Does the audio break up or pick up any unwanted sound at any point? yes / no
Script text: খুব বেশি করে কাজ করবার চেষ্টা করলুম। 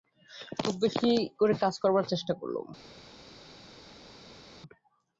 no